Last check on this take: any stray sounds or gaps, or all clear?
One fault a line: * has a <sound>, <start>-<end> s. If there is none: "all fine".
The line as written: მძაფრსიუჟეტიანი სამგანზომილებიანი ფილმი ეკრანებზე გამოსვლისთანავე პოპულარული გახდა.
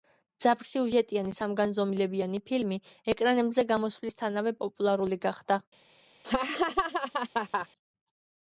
* has a laugh, 6.2-7.7 s